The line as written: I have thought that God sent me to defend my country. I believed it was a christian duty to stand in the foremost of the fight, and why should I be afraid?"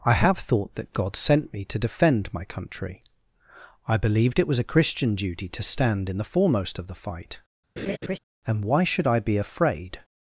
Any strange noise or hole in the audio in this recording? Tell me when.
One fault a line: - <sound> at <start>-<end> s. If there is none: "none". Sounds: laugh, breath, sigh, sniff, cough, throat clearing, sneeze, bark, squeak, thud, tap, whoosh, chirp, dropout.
- laugh at 7.8-8.2 s